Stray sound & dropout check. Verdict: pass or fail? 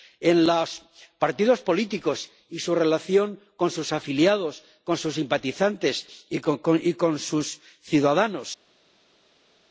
pass